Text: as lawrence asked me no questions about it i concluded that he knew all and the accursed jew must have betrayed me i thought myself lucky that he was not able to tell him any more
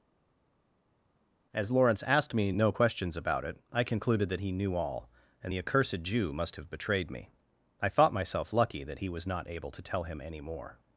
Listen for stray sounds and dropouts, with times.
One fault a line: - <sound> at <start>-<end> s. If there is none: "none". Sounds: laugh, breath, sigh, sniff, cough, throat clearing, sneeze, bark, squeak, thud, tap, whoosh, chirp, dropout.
none